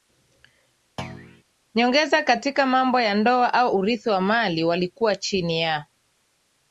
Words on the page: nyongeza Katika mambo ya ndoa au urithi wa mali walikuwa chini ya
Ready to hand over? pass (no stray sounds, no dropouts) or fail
fail